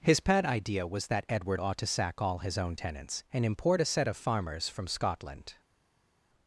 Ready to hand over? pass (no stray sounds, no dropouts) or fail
pass